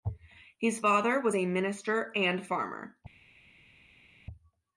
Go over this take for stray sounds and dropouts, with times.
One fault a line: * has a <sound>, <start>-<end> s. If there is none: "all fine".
all fine